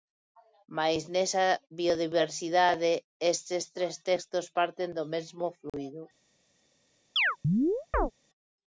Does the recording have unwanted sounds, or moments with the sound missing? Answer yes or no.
yes